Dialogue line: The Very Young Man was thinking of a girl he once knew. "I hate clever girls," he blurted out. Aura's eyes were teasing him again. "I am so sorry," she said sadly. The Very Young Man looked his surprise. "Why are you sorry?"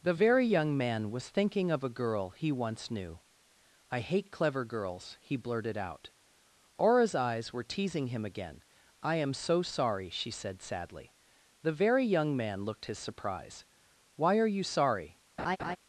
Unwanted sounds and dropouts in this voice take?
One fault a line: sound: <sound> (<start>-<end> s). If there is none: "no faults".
sound: laugh (15.4-15.8 s)